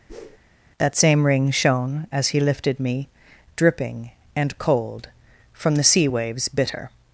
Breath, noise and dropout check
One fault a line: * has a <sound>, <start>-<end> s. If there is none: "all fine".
* has a whoosh, 0.1-0.4 s